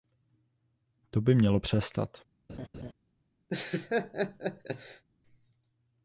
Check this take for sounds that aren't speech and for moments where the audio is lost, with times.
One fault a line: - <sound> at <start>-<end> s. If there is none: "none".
- laugh at 2.5-2.9 s
- laugh at 3.5-5.0 s